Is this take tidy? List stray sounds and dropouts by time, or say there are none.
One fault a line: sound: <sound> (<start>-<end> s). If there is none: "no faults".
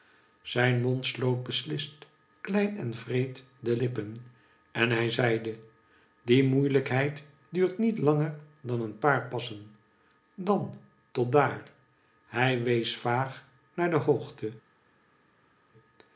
no faults